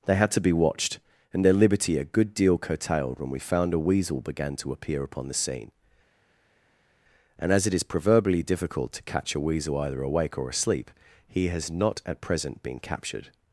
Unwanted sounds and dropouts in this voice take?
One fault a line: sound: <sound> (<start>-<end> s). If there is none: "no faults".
no faults